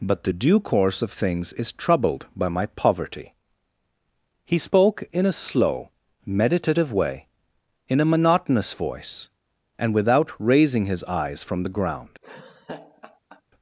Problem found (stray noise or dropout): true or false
true